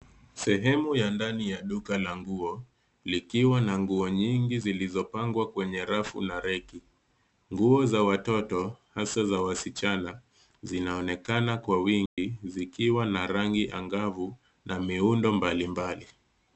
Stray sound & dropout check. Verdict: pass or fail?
fail